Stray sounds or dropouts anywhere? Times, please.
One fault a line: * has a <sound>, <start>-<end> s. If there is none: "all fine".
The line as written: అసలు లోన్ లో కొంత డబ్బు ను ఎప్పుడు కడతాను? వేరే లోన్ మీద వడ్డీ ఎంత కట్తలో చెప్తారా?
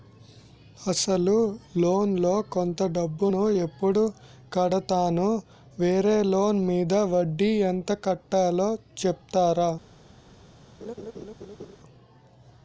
* has a laugh, 10.8-11.8 s